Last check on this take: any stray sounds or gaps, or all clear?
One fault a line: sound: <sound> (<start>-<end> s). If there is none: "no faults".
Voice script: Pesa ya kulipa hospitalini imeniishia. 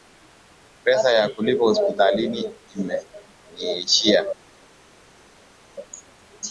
no faults